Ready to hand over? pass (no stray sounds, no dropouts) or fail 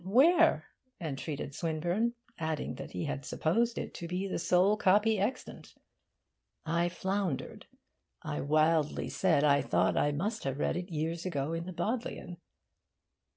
pass